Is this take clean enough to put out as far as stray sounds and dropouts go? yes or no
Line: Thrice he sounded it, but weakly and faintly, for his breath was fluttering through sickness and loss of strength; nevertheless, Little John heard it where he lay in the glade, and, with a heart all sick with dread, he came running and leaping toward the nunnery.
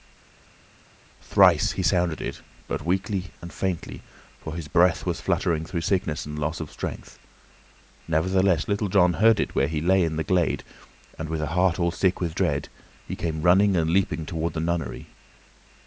yes